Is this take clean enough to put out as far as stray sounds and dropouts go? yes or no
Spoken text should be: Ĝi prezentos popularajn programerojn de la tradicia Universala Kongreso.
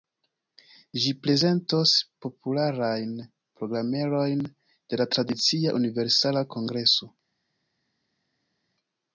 yes